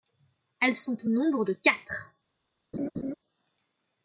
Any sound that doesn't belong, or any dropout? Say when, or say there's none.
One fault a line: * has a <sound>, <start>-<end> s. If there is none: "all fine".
* has a laugh, 2.7-3.1 s